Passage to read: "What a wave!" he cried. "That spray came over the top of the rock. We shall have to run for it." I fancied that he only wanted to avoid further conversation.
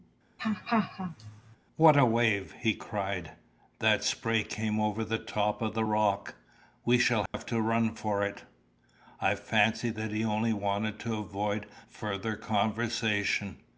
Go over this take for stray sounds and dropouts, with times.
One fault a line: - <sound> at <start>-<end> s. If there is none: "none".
- laugh at 0.4-1.6 s
- dropout at 7.3-7.3 s